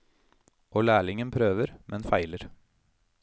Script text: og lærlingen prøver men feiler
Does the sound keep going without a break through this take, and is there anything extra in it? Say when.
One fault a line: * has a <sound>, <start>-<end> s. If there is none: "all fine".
all fine